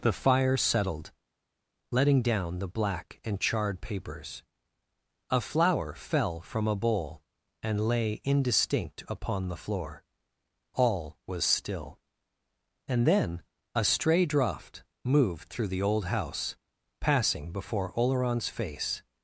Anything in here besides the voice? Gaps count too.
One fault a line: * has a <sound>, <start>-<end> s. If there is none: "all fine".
all fine